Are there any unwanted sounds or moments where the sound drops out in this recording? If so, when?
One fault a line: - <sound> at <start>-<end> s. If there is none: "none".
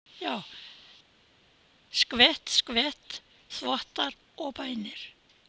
none